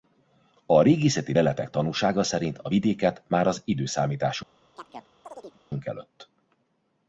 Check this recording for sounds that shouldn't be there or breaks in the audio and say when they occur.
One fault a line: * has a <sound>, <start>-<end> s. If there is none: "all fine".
* has a chirp, 4.8-5.6 s